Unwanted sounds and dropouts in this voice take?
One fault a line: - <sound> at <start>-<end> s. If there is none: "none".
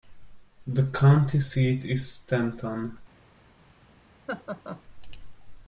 - laugh at 4.3-4.8 s